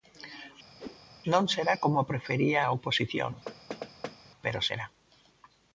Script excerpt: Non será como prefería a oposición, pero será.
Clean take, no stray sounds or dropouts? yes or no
no